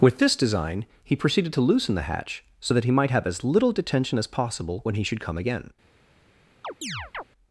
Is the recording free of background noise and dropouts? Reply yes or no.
no